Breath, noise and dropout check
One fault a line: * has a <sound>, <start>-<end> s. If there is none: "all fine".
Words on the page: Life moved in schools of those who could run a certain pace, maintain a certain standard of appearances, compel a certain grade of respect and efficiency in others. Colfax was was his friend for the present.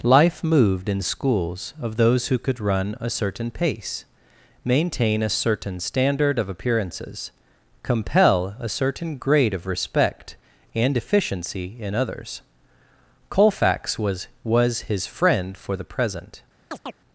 * has a chirp, 16.7-17.0 s